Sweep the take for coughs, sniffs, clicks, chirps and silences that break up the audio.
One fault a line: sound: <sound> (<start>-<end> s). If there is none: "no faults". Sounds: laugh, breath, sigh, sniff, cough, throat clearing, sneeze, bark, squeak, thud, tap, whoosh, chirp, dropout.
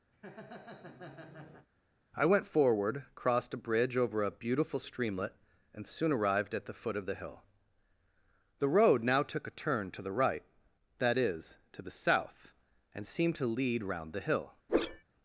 sound: laugh (0.1-1.7 s)
sound: whoosh (14.7-15.0 s)